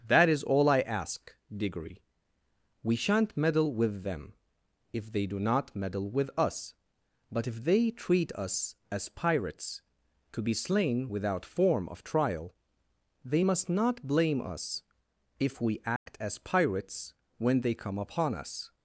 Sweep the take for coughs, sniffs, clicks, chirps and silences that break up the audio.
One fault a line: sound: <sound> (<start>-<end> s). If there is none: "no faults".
sound: dropout (16.0-16.1 s)